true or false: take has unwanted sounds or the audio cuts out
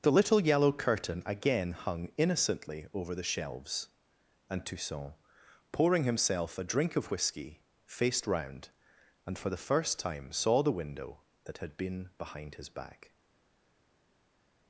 false